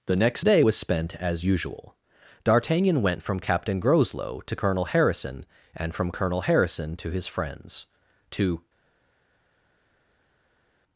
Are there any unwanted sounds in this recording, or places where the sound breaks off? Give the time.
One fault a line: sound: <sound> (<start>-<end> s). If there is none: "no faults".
no faults